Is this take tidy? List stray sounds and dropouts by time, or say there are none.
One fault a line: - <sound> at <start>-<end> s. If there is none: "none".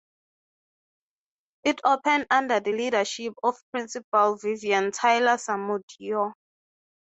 none